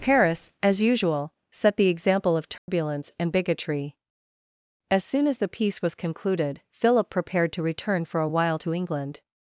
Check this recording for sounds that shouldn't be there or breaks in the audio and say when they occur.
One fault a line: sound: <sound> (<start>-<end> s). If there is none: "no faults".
sound: dropout (2.6-2.7 s)